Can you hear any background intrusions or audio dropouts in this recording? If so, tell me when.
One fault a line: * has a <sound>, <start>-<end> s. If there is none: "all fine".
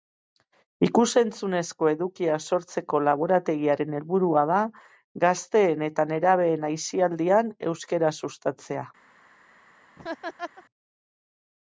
* has a laugh, 10.0-10.6 s